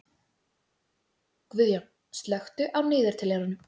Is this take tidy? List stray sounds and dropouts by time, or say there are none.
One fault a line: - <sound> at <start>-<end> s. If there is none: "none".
none